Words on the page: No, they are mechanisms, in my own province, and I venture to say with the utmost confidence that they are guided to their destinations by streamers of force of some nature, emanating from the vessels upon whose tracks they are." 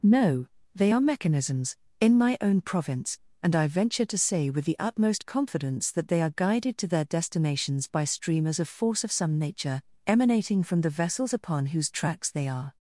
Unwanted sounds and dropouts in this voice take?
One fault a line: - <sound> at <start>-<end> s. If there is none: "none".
none